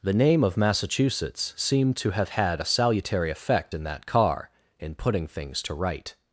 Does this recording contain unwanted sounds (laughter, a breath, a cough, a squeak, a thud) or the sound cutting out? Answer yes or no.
no